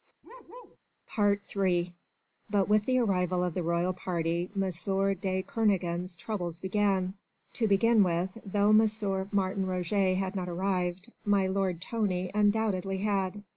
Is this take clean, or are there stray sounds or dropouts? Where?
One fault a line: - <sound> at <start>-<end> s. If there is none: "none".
- bark at 0.2-0.8 s